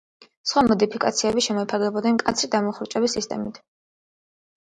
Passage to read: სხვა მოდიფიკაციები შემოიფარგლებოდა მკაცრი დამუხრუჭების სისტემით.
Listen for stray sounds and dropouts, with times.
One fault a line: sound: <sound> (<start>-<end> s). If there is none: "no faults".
no faults